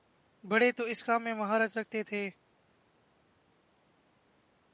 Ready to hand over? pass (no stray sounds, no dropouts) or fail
pass